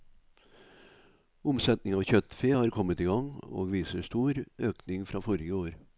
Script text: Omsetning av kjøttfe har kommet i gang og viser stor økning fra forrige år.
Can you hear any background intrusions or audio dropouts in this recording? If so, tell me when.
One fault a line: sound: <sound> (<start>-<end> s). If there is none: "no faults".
no faults